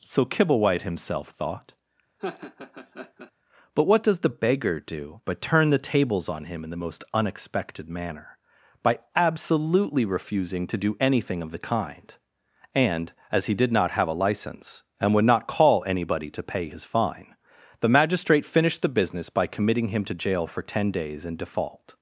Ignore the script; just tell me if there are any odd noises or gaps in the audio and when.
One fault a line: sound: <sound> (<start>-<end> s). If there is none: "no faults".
sound: laugh (2.2-3.3 s)